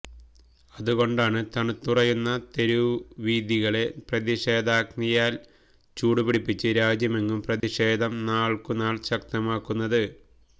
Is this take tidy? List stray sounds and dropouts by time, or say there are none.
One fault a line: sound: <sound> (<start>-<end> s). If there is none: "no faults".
sound: dropout (7.6-7.6 s)